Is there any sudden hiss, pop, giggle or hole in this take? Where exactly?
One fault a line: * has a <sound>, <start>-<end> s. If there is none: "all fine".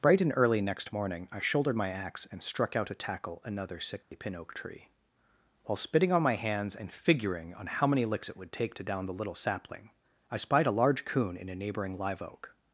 * has a dropout, 4.0-4.1 s